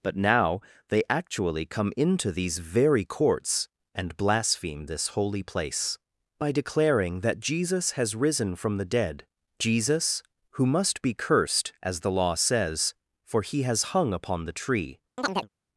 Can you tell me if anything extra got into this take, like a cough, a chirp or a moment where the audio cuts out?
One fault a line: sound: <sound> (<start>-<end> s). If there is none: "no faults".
sound: chirp (15.2-15.5 s)